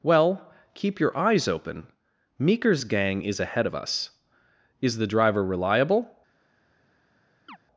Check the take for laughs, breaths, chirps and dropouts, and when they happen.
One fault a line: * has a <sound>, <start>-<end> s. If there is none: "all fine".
* has a chirp, 7.5-7.6 s